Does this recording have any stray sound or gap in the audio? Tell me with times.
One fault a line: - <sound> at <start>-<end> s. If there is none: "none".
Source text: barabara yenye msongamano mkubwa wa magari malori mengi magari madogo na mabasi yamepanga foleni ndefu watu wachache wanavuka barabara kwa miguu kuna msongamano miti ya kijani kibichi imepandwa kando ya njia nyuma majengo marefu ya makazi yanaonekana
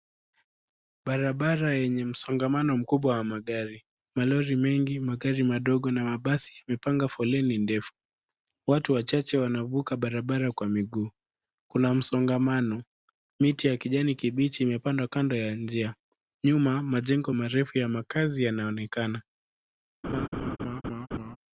- laugh at 20.0-21.4 s